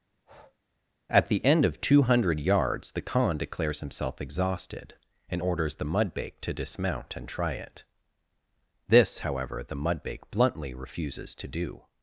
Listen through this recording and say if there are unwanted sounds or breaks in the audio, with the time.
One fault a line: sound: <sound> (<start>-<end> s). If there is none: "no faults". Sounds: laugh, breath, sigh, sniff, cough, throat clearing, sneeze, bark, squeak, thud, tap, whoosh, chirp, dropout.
sound: breath (0.1-0.6 s)